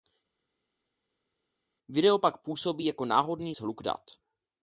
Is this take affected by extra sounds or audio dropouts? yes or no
no